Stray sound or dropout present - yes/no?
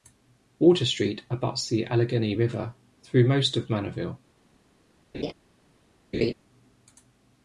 yes